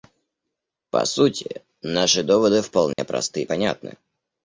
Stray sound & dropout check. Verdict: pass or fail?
fail